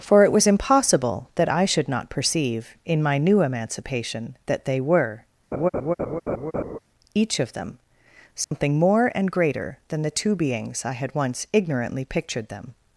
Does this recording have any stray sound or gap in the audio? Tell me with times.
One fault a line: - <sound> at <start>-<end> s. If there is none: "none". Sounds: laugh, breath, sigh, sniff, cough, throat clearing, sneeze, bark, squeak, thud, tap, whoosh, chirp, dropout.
- laugh at 5.5-6.8 s
- dropout at 8.4-8.5 s